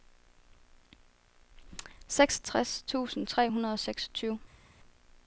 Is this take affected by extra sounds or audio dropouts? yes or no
no